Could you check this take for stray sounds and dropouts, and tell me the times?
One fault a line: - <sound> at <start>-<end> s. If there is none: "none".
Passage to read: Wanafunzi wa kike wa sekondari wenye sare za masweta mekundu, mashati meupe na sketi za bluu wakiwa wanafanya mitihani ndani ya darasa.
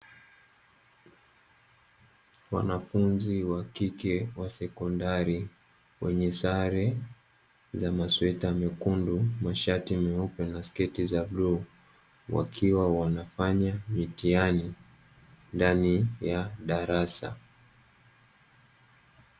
none